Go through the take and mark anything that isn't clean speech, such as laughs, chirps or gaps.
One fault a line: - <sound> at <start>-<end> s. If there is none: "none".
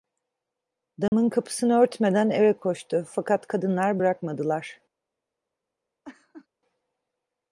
- dropout at 1.1-1.1 s
- laugh at 6.0-6.5 s